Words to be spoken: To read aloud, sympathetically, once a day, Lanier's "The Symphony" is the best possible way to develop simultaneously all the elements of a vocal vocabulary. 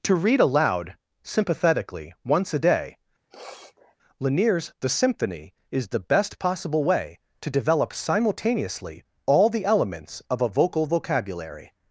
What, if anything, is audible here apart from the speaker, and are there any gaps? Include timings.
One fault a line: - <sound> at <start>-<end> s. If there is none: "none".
- sniff at 3.3-4.0 s